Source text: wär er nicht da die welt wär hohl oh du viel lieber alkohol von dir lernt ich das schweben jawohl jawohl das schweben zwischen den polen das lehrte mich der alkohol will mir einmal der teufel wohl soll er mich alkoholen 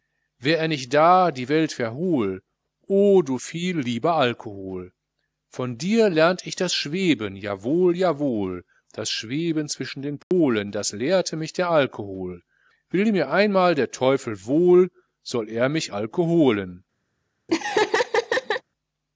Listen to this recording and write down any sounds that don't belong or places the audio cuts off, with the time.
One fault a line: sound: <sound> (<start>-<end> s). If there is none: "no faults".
sound: dropout (10.2-10.3 s)
sound: laugh (17.5-18.6 s)